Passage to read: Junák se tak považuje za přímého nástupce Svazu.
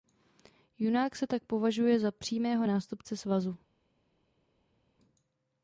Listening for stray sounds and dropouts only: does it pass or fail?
pass